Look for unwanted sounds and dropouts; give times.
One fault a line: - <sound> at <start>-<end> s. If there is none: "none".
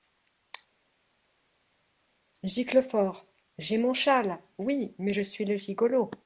none